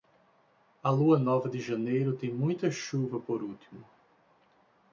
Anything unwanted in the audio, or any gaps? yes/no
no